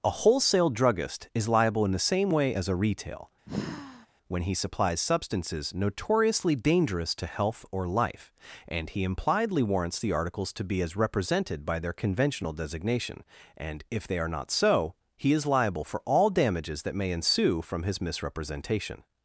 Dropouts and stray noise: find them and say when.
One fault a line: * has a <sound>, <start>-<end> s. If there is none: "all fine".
* has a sigh, 3.5-4.1 s